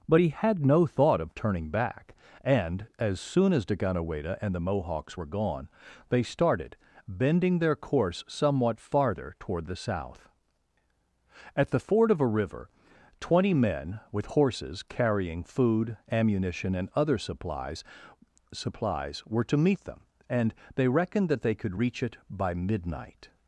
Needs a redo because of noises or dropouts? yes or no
no